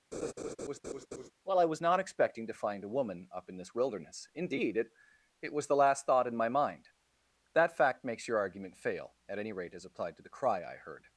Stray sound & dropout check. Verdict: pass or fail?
fail